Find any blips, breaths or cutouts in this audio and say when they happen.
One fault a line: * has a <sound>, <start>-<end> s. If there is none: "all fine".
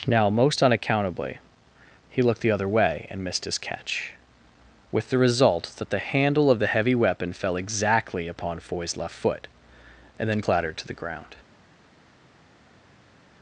all fine